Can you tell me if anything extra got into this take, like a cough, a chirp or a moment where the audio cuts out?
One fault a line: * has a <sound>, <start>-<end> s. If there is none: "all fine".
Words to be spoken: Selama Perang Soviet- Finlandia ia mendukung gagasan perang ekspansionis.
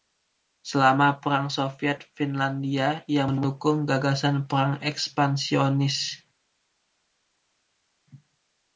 all fine